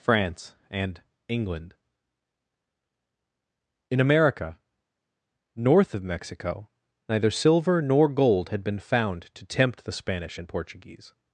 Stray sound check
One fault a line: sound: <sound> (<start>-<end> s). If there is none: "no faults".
no faults